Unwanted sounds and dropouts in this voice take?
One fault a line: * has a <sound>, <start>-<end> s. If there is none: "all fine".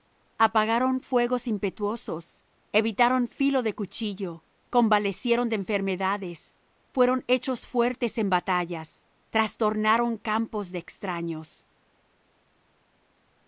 all fine